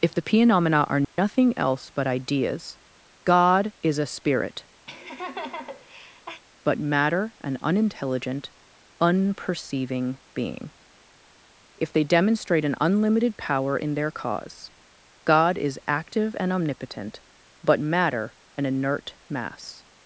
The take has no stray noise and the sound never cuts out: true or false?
false